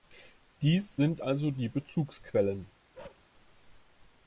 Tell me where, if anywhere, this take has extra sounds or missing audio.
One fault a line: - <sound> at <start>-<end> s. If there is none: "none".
- bark at 2.9-3.3 s